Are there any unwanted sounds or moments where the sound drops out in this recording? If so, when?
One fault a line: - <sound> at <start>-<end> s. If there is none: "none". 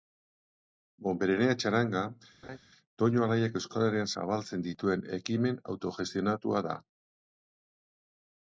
- laugh at 2.4-2.6 s